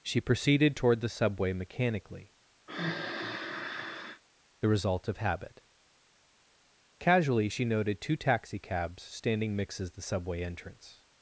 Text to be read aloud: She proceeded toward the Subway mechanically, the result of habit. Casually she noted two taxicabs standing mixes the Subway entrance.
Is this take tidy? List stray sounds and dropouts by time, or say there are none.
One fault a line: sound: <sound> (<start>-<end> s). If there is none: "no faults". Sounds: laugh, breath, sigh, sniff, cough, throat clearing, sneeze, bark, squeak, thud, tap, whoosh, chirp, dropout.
sound: sigh (2.7-4.2 s)